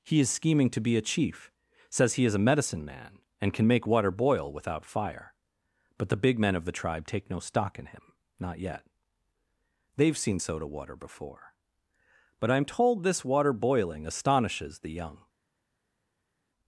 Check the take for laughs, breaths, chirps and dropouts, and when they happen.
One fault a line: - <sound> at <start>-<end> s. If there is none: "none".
none